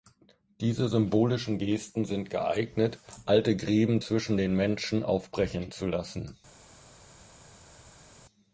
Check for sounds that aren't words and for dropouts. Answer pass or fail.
pass